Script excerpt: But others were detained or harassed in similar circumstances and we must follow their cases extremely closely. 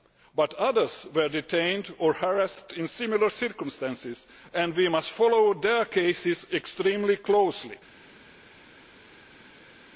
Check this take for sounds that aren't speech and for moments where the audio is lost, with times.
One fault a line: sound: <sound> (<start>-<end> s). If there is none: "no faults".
no faults